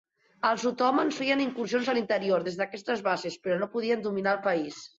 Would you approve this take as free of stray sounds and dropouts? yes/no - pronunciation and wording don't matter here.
yes